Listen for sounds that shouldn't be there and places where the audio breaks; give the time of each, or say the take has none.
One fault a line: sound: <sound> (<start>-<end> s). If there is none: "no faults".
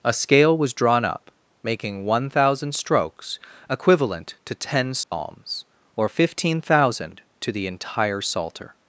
sound: dropout (5.0-5.1 s)